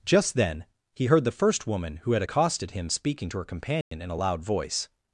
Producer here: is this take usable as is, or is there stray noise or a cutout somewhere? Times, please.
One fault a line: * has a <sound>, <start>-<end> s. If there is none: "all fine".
* has a dropout, 3.8-3.9 s